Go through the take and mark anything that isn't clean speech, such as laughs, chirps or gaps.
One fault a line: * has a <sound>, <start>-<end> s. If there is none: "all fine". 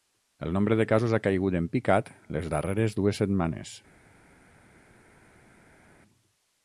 all fine